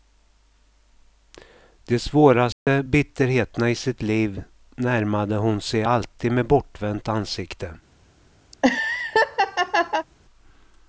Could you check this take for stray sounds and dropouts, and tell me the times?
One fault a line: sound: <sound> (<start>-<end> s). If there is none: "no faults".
sound: dropout (2.5-2.7 s)
sound: laugh (8.5-10.1 s)